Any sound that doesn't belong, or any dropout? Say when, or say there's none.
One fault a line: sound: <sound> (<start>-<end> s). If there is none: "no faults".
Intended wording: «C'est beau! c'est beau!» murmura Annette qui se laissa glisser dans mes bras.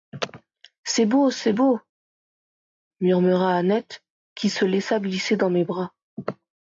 no faults